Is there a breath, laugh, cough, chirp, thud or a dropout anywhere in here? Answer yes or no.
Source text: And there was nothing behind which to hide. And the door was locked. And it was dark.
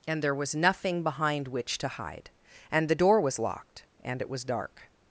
no